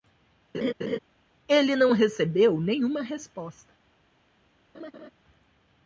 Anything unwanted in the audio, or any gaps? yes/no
yes